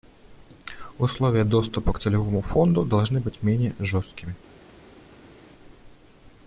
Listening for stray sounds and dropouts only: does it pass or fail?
pass